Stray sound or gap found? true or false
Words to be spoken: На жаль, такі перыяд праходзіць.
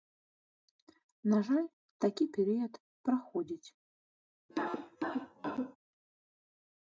true